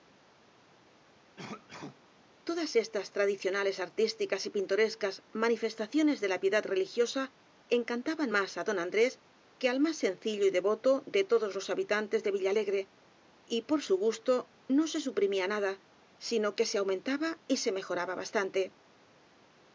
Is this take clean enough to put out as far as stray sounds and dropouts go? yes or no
no